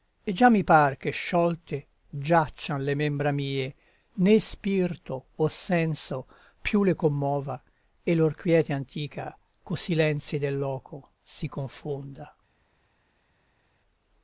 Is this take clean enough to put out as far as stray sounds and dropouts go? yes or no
yes